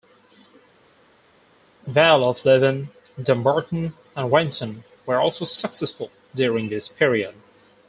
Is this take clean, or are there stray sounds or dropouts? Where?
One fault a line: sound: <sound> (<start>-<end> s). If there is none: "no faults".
no faults